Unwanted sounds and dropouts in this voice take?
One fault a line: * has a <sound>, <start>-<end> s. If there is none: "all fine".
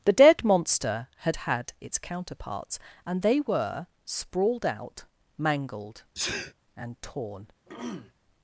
* has a sneeze, 6.2-6.5 s
* has a throat clearing, 7.7-8.1 s